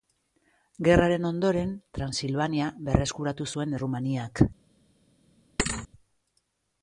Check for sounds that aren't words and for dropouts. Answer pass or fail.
fail